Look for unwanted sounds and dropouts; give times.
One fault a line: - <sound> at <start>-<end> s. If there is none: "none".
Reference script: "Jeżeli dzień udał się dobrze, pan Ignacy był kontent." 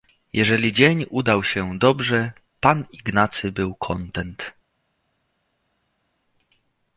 none